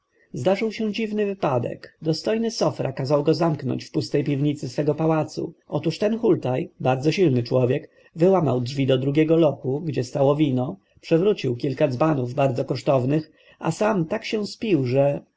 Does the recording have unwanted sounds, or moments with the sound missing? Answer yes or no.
no